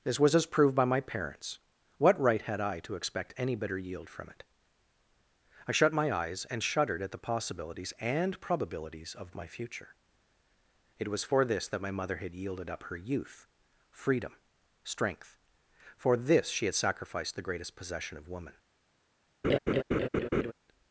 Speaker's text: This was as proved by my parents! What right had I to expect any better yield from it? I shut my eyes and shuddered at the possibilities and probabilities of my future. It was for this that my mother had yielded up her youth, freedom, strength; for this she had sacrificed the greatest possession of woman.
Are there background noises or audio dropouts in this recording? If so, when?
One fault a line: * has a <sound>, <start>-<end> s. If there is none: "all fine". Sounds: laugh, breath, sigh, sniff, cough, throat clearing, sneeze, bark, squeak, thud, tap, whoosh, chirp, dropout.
* has a laugh, 19.4-20.5 s